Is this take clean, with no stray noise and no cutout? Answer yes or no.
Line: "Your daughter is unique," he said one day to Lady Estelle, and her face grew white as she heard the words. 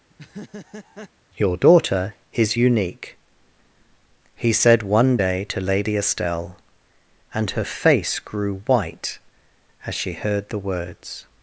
no